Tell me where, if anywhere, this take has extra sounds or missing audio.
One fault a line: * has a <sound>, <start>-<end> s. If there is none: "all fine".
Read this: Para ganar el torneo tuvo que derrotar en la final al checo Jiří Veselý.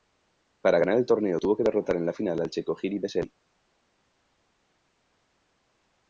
all fine